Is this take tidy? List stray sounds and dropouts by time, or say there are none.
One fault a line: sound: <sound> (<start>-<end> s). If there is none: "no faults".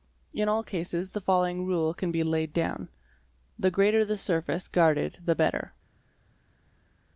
no faults